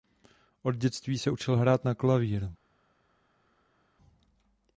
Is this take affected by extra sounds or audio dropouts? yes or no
no